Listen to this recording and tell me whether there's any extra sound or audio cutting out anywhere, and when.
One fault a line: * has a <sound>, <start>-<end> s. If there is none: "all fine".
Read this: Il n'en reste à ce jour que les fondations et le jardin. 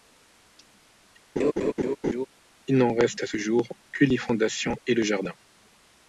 * has a laugh, 1.4-2.3 s